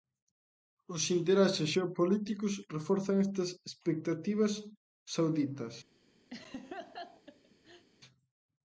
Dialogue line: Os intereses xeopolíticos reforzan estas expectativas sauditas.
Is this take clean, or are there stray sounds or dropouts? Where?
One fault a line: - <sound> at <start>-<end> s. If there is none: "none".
- laugh at 6.3-7.9 s